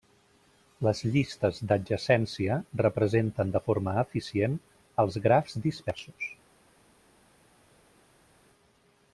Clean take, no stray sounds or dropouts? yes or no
yes